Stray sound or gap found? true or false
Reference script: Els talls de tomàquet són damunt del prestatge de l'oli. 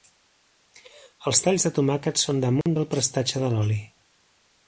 true